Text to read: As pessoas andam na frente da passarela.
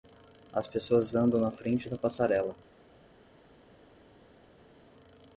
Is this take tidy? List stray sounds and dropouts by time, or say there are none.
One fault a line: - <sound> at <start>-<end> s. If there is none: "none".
none